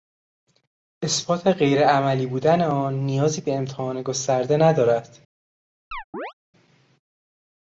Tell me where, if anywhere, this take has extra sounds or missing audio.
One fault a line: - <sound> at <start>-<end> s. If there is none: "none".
- chirp at 5.9-6.3 s